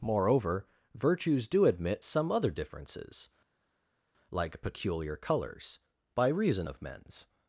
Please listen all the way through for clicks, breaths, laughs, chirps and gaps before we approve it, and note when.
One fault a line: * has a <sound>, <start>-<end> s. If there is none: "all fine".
all fine